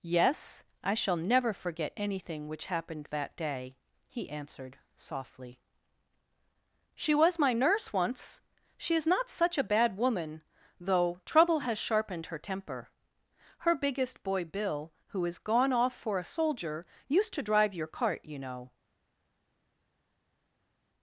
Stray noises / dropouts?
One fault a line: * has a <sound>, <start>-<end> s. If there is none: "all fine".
all fine